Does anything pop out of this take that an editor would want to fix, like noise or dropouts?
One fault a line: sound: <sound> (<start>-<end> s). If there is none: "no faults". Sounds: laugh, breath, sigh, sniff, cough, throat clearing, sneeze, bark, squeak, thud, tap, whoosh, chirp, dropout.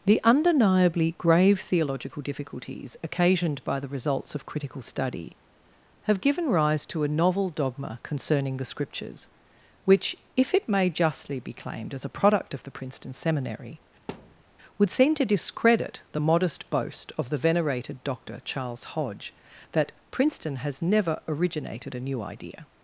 sound: thud (14.1-14.4 s)